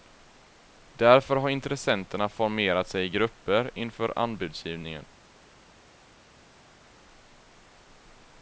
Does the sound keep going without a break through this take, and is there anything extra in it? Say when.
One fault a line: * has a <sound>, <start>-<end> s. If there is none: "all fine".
all fine